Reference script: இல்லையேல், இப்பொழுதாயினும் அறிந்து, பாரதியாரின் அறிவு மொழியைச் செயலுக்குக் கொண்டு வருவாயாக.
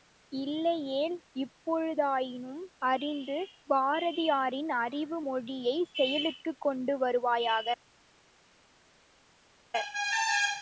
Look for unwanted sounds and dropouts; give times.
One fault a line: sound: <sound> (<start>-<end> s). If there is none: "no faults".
no faults